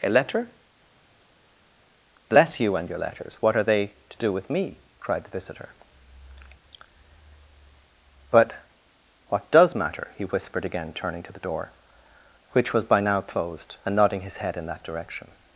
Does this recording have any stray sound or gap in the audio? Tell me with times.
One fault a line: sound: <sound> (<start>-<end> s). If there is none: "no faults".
no faults